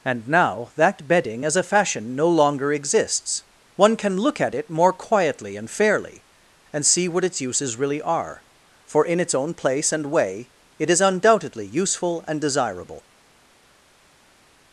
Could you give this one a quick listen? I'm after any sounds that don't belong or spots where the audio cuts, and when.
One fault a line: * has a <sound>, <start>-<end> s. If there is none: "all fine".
all fine